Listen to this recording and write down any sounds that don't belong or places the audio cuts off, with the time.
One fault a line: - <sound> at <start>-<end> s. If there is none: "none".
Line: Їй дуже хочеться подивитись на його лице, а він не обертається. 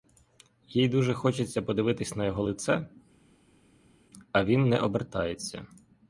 none